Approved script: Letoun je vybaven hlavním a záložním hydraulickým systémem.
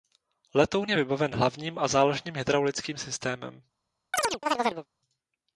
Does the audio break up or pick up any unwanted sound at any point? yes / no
yes